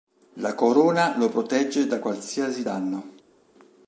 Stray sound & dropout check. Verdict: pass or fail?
pass